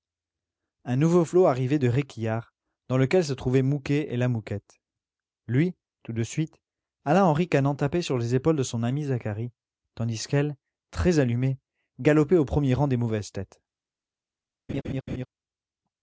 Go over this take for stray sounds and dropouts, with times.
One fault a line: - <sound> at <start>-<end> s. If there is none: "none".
- laugh at 14.7-15.3 s